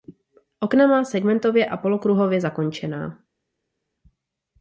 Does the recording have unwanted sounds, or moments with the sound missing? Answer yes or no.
no